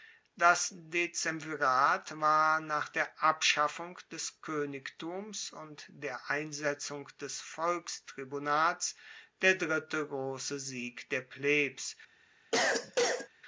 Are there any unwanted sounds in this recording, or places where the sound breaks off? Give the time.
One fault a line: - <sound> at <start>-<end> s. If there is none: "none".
- cough at 12.5-13.3 s